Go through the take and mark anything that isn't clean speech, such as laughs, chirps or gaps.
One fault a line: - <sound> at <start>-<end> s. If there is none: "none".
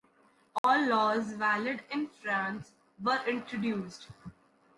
- dropout at 0.6-0.6 s